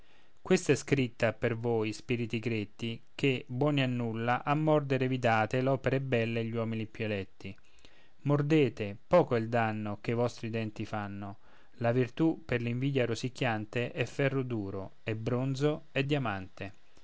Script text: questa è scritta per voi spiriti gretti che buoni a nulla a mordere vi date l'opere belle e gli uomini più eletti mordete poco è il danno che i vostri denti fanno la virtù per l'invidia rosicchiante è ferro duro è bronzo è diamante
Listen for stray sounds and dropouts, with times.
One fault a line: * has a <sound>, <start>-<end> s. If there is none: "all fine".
all fine